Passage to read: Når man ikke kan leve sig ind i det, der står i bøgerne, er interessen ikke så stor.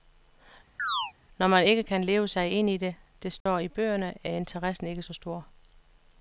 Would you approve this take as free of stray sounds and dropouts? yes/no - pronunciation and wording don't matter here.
no